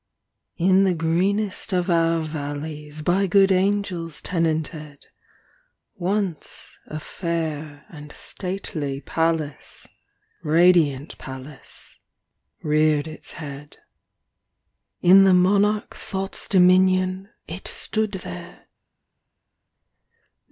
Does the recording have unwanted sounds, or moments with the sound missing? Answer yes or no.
no